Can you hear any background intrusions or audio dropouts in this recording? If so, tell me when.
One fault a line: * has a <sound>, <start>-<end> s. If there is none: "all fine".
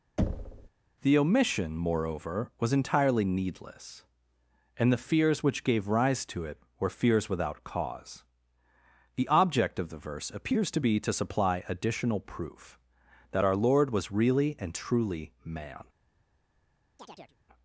* has a thud, 0.2-0.7 s
* has a chirp, 17.0-17.4 s